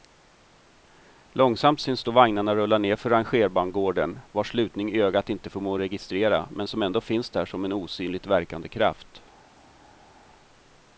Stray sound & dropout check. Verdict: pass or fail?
pass